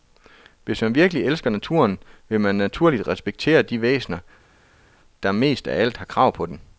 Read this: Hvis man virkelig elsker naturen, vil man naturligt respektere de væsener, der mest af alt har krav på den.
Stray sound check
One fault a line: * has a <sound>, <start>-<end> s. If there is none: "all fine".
all fine